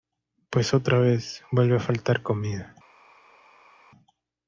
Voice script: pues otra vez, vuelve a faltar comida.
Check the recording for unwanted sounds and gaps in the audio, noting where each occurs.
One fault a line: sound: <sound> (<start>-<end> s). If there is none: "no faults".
no faults